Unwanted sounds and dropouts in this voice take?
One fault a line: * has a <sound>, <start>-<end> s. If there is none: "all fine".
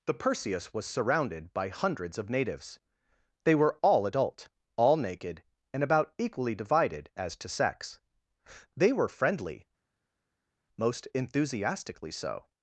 all fine